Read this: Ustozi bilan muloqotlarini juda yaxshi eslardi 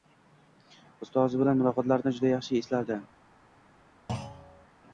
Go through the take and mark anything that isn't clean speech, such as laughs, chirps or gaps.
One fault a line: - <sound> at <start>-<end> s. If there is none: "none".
- thud at 4.1-4.7 s